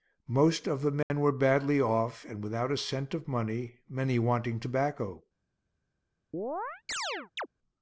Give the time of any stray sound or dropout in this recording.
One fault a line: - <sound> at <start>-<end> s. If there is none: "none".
- dropout at 1.0-1.1 s
- chirp at 6.3-7.5 s